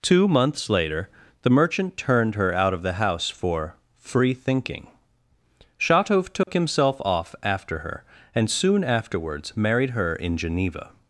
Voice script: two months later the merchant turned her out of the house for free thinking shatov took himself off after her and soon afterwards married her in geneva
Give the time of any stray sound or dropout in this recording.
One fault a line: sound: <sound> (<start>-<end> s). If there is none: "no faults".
sound: dropout (6.4-6.5 s)